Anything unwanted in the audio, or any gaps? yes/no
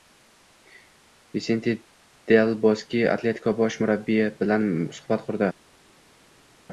no